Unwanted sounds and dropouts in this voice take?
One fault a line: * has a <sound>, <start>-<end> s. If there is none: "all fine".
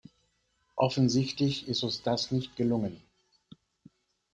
all fine